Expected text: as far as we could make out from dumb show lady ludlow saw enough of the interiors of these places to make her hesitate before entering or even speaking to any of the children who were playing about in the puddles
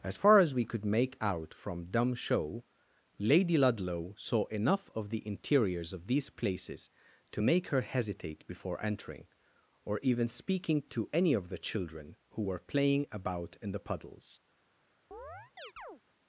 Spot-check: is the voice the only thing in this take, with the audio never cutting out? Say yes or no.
no